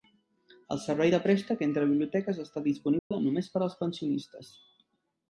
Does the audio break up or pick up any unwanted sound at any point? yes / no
yes